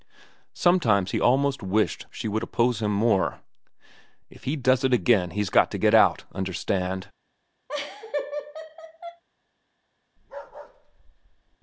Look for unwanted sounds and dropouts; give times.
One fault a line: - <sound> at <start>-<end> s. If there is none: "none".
- laugh at 7.7-9.2 s
- bark at 10.2-11.6 s